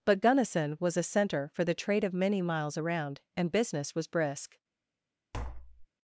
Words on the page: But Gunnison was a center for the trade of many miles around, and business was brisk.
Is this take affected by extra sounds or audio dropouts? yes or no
yes